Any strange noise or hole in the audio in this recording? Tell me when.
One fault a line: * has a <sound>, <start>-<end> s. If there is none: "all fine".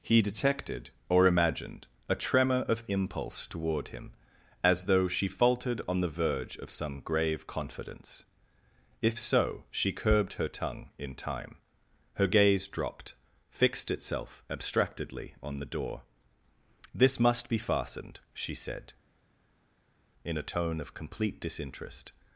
all fine